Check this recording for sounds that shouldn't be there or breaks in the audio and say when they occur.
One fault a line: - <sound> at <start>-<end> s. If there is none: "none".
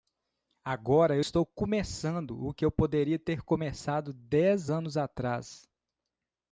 none